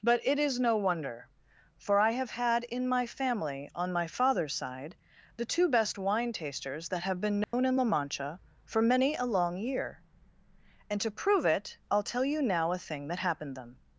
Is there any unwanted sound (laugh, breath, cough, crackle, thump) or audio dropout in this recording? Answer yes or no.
yes